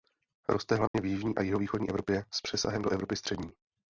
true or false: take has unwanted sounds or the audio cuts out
true